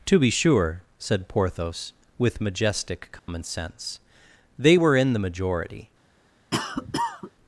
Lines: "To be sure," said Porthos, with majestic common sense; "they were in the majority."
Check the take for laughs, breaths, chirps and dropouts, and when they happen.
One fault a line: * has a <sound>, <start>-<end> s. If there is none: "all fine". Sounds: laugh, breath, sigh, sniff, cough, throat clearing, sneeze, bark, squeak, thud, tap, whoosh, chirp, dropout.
* has a dropout, 3.2-3.3 s
* has a cough, 6.5-7.3 s